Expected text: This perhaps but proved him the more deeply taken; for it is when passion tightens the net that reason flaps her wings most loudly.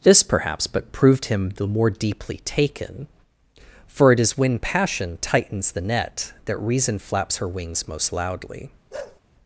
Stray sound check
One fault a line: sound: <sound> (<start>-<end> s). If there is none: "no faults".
sound: bark (8.9-9.2 s)